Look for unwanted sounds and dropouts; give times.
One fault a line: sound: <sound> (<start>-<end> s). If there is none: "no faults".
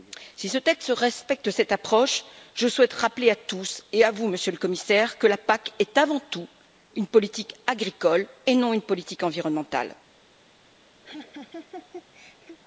sound: laugh (11.0-12.6 s)